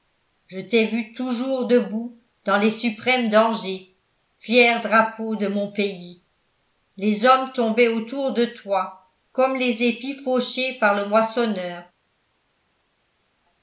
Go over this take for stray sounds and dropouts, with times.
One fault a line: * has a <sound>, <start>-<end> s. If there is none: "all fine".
all fine